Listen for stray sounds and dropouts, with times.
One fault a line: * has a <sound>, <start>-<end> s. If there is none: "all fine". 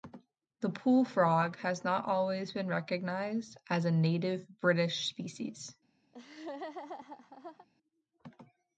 * has a laugh, 6.1-7.7 s